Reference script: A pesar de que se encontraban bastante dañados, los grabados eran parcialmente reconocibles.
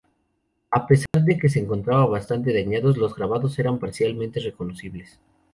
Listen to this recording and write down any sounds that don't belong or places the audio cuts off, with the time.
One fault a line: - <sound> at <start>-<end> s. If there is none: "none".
- dropout at 1.1-1.1 s